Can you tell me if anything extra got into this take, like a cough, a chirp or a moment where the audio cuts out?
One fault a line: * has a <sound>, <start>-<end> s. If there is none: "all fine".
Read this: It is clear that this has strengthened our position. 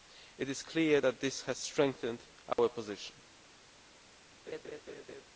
* has a dropout, 2.5-2.6 s
* has a laugh, 4.5-5.2 s